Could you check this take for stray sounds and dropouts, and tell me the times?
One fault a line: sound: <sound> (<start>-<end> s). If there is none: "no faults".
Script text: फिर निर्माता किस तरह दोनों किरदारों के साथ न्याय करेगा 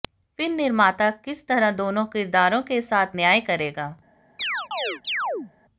sound: chirp (4.4-5.5 s)